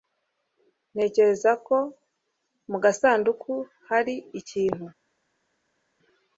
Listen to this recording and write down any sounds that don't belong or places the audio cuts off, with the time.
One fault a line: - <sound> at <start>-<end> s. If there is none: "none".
none